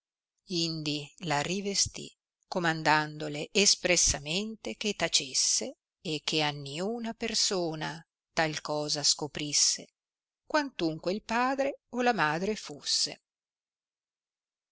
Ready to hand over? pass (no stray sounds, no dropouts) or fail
pass